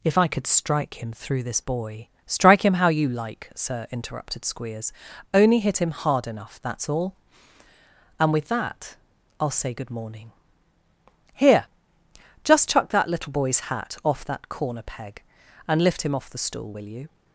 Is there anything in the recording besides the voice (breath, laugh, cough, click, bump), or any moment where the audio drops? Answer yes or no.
no